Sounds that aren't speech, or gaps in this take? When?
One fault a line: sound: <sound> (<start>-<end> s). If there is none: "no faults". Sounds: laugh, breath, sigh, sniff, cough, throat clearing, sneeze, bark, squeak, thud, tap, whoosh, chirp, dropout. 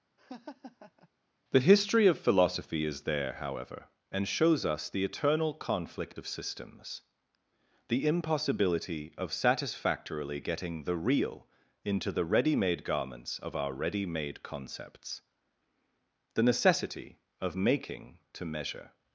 sound: laugh (0.2-1.1 s)